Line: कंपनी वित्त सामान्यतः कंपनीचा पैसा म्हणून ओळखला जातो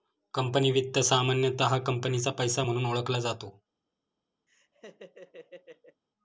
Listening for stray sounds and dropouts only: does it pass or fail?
fail